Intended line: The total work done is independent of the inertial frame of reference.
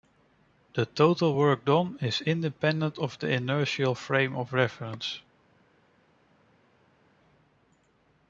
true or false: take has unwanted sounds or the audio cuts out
false